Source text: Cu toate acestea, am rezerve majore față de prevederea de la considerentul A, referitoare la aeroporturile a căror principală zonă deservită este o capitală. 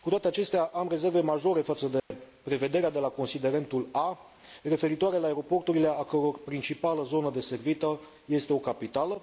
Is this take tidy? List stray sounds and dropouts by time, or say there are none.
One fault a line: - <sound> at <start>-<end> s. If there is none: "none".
- dropout at 2.0-2.1 s